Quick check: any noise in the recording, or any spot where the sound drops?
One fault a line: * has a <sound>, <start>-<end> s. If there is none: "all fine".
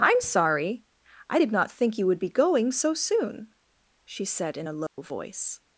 * has a dropout, 4.9-5.0 s